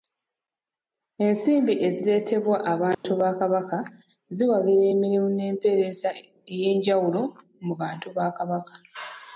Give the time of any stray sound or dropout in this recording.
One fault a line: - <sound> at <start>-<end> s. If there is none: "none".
- dropout at 2.9-3.0 s